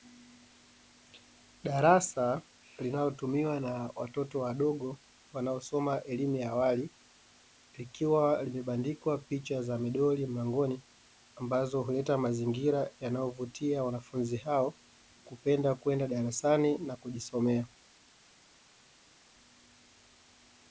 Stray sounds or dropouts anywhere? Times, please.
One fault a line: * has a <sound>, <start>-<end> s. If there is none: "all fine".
all fine